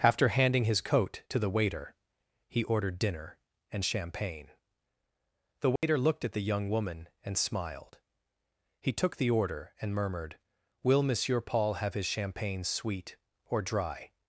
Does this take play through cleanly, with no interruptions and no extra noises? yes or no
no